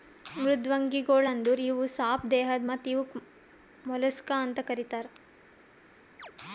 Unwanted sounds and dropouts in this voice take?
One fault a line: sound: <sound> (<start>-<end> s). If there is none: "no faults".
sound: chirp (6.2-6.3 s)